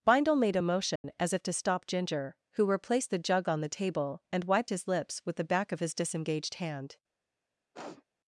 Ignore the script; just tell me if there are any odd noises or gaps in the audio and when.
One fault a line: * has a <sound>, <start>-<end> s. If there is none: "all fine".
* has a dropout, 1.0-1.0 s
* has a sniff, 7.7-8.0 s